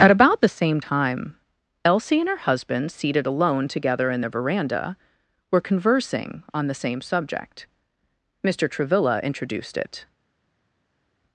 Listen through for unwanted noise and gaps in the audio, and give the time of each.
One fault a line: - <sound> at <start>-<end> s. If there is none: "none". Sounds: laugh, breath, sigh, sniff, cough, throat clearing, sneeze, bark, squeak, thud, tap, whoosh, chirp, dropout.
none